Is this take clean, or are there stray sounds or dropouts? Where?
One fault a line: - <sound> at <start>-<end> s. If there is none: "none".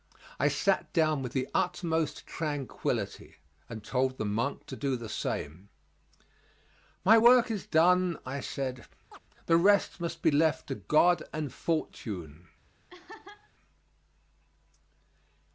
- chirp at 9.1-9.2 s
- laugh at 12.9-13.5 s